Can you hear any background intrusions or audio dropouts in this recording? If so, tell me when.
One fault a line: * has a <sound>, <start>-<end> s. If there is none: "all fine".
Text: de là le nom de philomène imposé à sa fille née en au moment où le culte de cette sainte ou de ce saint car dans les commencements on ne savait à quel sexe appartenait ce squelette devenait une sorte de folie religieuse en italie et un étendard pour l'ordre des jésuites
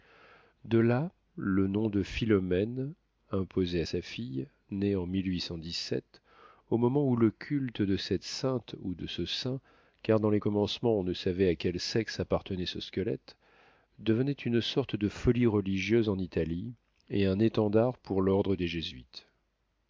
all fine